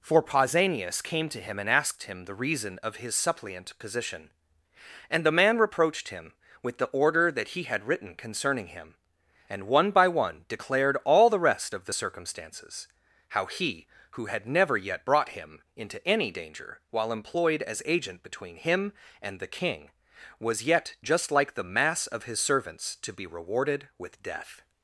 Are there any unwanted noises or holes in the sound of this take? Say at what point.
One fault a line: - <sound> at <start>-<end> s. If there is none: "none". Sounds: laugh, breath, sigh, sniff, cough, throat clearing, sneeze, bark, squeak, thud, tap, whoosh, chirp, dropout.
none